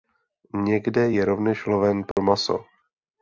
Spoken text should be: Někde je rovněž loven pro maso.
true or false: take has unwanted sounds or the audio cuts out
true